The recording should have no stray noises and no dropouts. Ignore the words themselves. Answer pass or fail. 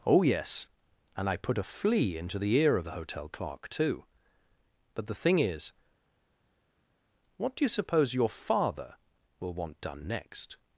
pass